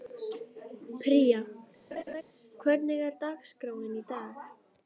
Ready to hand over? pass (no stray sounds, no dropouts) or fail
fail